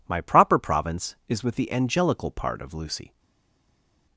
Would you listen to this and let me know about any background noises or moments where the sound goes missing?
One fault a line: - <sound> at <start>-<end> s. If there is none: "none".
none